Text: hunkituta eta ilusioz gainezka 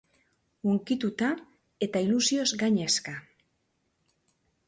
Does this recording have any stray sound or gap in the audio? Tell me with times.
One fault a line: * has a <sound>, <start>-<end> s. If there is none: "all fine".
all fine